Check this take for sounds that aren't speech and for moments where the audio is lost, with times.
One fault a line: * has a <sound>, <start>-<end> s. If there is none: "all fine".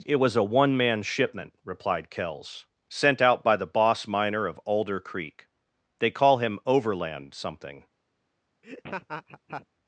* has a laugh, 8.6-9.7 s